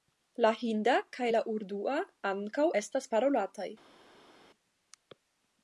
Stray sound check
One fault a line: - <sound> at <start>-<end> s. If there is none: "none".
none